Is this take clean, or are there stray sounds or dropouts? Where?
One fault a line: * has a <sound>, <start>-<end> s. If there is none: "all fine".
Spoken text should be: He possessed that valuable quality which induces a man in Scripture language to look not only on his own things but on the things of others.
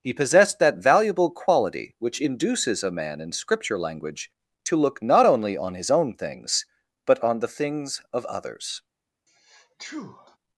* has a sneeze, 9.3-10.4 s